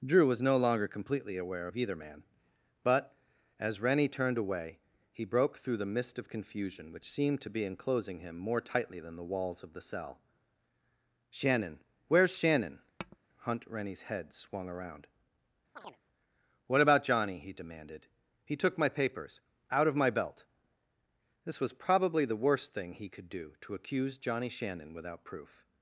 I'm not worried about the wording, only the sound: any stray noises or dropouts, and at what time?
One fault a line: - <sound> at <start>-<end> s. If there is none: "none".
- tap at 13.0-13.2 s
- chirp at 15.8-16.0 s